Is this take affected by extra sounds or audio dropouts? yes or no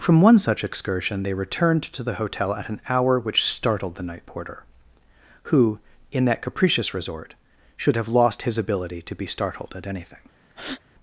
yes